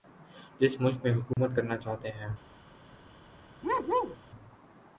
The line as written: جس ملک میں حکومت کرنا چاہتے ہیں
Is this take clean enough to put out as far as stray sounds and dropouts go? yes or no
no